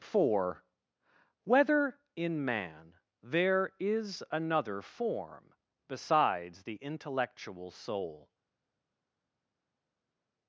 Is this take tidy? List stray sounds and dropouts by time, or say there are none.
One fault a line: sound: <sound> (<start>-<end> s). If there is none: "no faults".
no faults